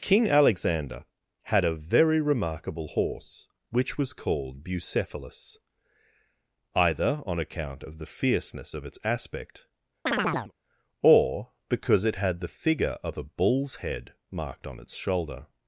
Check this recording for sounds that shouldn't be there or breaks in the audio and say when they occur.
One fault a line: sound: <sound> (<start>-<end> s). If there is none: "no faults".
sound: chirp (10.1-10.5 s)